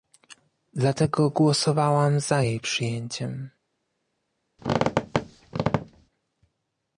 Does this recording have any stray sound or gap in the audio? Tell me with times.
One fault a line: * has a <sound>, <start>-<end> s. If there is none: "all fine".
* has a squeak, 4.6-6.1 s